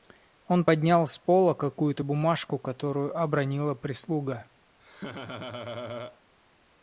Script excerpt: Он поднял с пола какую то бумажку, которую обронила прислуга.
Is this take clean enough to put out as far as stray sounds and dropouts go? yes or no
no